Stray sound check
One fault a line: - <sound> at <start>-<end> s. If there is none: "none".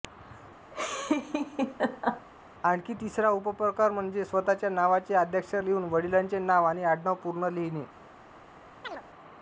- laugh at 0.7-2.3 s
- chirp at 8.8-9.0 s